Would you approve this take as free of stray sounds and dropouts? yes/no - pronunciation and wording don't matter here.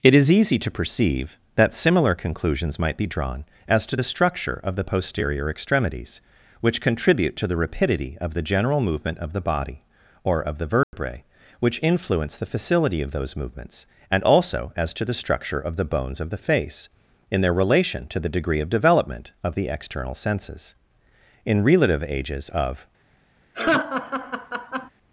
no